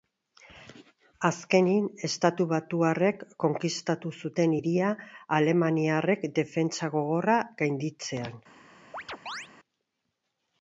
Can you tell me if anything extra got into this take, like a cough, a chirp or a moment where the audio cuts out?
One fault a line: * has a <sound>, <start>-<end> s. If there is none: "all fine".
* has a chirp, 8.9-9.5 s